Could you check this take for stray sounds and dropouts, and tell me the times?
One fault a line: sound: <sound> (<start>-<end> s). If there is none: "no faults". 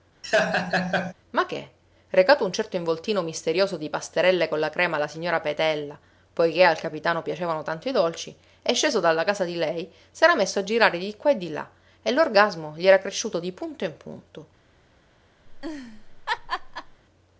sound: laugh (0.2-1.1 s)
sound: laugh (15.4-17.0 s)